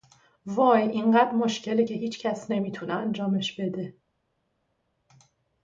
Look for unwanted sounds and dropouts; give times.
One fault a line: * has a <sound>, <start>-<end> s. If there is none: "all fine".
all fine